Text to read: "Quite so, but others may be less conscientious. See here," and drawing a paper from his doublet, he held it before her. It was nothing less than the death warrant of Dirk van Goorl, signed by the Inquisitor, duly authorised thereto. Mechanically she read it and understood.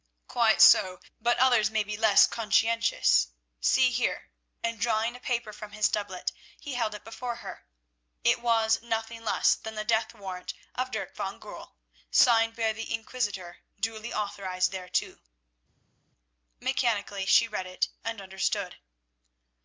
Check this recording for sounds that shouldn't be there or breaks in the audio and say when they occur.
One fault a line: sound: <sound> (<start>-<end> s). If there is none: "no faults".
no faults